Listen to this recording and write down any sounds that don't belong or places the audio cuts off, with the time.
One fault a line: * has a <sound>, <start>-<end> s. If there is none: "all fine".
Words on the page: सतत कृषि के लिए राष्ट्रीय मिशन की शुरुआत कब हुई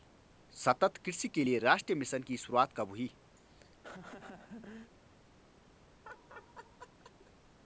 * has a laugh, 3.4-4.9 s
* has a laugh, 6.0-7.3 s